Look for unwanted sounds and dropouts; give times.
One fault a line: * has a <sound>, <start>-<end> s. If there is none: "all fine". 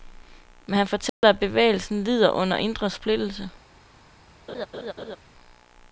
* has a dropout, 1.1-1.2 s
* has a laugh, 4.5-5.2 s